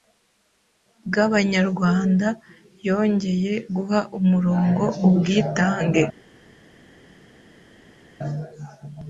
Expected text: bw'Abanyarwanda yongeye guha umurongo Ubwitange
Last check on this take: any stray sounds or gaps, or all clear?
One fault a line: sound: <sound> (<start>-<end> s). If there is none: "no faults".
no faults